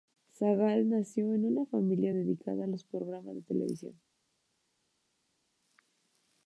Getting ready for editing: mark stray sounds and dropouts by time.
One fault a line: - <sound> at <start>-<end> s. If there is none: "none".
none